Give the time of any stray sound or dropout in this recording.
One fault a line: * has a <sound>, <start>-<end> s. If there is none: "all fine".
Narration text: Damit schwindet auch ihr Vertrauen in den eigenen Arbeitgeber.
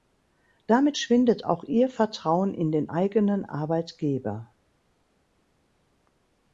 all fine